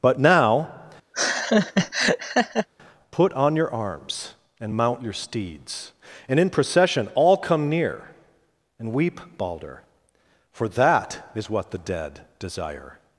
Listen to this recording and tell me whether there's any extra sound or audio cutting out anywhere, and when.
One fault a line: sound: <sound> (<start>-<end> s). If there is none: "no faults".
sound: laugh (1.1-2.7 s)